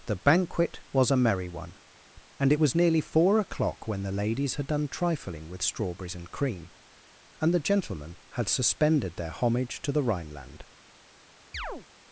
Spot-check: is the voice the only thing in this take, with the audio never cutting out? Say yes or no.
no